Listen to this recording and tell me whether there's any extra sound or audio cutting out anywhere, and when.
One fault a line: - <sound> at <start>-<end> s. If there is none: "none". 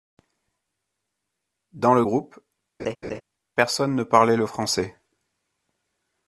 - laugh at 2.8-3.2 s